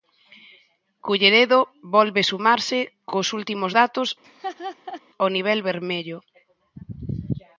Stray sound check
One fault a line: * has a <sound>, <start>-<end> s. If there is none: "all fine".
* has a laugh, 4.2-5.0 s